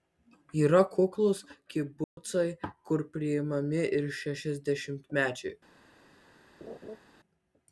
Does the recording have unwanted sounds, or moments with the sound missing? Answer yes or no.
yes